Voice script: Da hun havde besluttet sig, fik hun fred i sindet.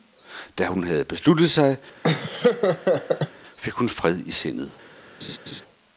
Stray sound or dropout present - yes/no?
yes